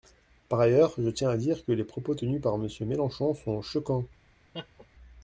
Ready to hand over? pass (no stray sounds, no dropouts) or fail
fail